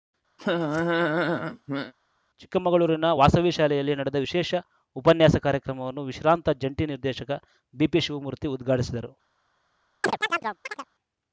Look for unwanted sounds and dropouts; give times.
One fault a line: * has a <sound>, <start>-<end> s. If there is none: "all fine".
* has a laugh, 0.4-1.9 s
* has a chirp, 10.0-10.9 s